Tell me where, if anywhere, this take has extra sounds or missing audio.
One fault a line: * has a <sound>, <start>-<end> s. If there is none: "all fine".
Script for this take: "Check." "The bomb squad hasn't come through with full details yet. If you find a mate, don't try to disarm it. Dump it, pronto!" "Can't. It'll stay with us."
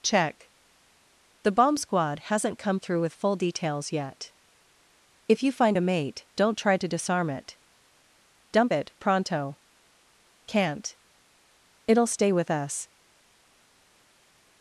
all fine